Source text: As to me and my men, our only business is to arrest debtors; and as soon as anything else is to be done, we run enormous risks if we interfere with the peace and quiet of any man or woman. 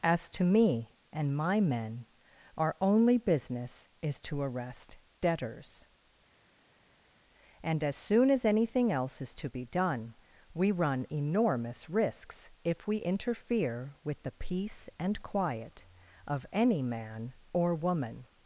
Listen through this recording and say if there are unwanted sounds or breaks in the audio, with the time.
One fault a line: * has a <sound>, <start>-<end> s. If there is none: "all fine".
all fine